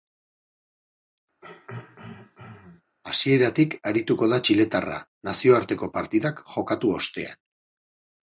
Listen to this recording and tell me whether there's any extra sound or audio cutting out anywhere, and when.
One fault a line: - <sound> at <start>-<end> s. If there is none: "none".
- throat clearing at 1.4-2.8 s